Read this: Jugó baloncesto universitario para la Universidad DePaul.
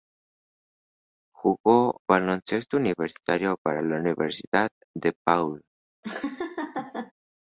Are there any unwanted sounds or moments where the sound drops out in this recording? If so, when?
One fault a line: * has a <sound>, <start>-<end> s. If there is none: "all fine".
* has a laugh, 6.0-7.1 s